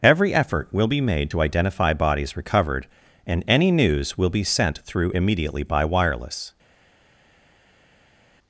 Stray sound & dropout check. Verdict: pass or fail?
pass